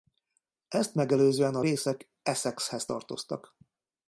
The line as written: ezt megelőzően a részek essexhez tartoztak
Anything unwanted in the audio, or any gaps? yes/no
no